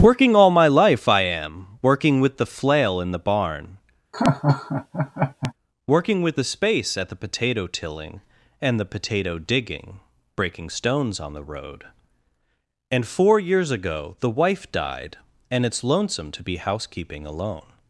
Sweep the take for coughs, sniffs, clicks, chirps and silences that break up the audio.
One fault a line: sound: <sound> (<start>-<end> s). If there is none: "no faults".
sound: laugh (4.1-5.5 s)